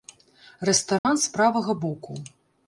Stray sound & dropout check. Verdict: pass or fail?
fail